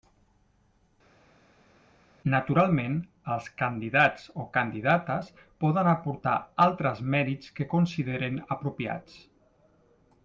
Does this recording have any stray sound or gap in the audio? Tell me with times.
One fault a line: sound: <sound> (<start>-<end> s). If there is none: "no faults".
no faults